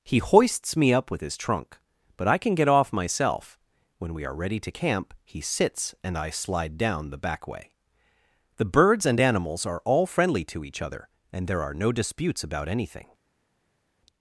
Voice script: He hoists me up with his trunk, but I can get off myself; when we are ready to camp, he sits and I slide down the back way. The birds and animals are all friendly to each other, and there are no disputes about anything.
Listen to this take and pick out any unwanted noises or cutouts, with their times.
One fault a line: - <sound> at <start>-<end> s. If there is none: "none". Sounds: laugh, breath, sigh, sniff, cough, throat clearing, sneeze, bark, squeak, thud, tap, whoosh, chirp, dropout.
none